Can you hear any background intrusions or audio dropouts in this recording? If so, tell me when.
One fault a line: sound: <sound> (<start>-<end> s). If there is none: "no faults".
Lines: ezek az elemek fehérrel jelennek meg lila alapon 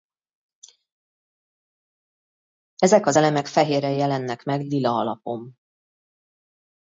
no faults